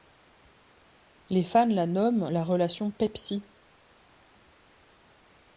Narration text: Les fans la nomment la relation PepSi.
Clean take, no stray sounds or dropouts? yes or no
yes